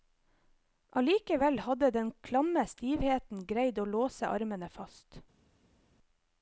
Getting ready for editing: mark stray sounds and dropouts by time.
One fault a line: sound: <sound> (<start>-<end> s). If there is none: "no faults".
no faults